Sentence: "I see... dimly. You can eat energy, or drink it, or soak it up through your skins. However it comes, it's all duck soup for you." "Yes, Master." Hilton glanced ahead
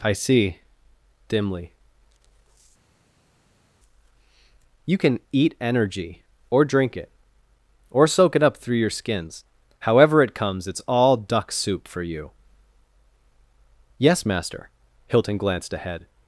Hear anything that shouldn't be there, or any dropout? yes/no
no